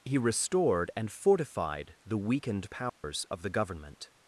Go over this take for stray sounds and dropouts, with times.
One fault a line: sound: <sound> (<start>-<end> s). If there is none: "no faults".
sound: dropout (2.9-3.0 s)